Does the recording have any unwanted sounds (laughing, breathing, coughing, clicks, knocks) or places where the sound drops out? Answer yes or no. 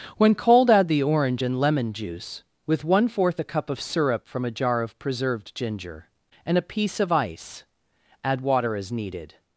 no